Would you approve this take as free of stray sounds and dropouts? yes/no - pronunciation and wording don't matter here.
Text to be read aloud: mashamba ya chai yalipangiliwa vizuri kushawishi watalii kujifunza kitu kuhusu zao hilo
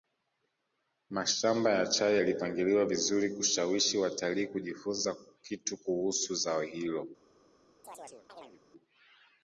no